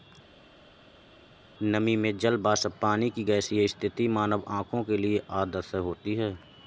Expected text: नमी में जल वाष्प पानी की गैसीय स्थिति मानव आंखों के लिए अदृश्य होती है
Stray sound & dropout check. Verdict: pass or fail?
pass